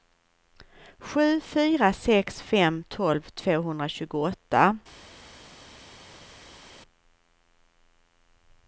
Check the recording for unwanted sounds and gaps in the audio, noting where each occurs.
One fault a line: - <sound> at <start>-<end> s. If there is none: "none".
none